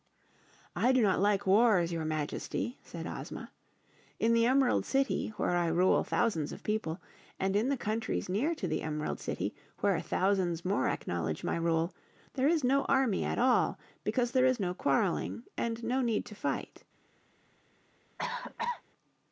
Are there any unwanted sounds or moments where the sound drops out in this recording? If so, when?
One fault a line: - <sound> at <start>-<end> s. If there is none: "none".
- cough at 18.2-18.8 s